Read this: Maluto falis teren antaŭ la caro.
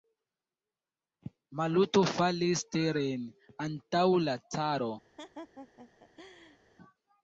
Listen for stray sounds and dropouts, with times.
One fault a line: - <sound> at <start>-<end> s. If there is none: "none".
- laugh at 5.2-6.6 s